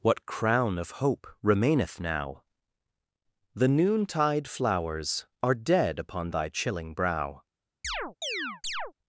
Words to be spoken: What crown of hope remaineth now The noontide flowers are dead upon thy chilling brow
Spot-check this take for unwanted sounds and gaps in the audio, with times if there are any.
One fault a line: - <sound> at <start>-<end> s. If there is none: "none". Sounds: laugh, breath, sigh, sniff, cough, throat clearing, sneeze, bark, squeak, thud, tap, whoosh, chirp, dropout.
- chirp at 7.8-8.9 s